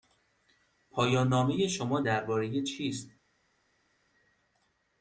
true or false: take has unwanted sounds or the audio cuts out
false